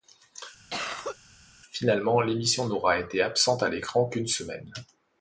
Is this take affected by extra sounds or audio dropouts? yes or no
yes